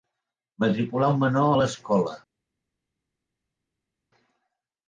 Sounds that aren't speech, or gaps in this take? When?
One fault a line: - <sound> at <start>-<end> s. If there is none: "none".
none